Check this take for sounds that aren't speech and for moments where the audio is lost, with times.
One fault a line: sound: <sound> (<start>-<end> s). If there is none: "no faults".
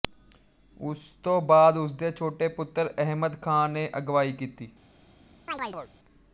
sound: chirp (5.5-5.9 s)